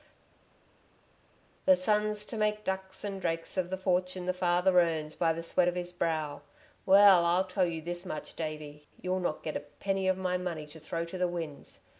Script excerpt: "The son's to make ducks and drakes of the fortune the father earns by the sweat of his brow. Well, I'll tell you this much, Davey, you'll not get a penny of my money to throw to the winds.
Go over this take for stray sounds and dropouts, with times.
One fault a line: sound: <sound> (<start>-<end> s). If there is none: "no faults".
no faults